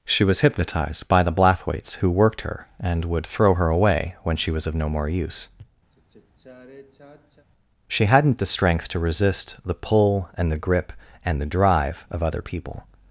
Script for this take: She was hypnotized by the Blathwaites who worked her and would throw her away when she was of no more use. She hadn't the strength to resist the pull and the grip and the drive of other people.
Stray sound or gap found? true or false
true